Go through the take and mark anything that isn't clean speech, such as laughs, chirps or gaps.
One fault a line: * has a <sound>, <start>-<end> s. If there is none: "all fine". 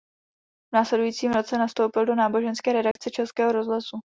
* has a dropout, 2.9-3.0 s